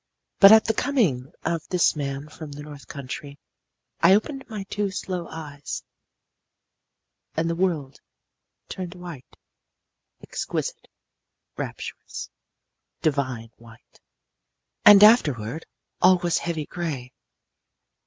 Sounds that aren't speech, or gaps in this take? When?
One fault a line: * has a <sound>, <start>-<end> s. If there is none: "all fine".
all fine